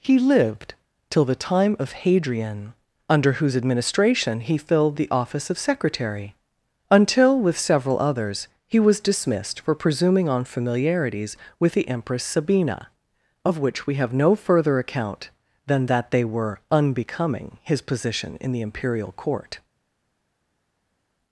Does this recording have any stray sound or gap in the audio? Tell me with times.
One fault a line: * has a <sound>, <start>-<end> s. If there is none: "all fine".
all fine